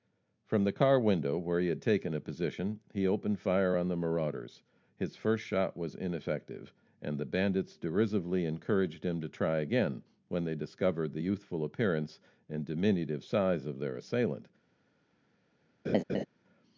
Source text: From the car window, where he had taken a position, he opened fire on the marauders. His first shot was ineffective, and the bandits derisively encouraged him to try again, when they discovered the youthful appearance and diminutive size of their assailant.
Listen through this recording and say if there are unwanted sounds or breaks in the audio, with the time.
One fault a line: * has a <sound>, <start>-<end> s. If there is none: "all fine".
* has a laugh, 15.8-16.3 s